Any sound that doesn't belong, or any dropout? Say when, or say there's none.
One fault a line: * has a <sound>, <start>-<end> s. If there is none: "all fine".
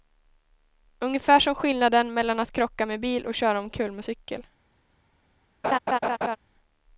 * has a laugh, 5.6-6.4 s